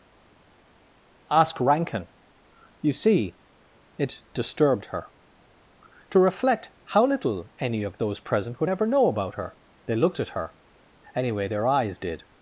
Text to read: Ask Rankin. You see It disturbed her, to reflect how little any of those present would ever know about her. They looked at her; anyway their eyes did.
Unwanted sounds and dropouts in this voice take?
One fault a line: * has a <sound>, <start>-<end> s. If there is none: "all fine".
all fine